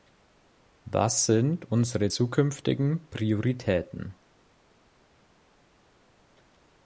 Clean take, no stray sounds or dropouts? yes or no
yes